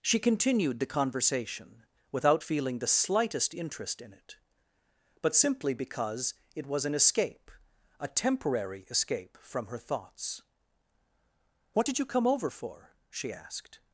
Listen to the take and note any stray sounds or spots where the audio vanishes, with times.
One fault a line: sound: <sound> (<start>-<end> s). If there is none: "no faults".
no faults